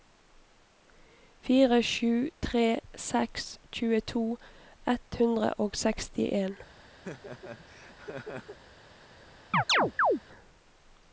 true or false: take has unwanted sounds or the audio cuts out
true